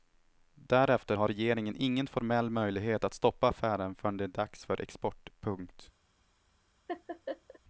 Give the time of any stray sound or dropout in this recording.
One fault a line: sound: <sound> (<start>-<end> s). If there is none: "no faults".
sound: laugh (6.9-7.6 s)